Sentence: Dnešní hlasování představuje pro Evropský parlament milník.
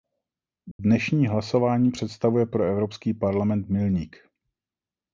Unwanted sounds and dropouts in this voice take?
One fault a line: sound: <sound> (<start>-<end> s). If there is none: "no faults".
sound: dropout (0.7-0.8 s)